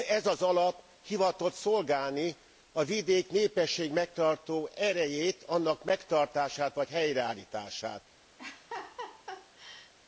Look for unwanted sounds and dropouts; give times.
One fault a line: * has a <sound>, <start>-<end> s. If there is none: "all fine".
* has a laugh, 8.4-9.9 s